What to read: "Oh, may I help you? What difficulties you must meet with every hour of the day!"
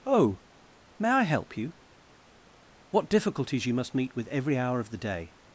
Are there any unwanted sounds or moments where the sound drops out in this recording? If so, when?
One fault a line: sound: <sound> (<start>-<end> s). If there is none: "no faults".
no faults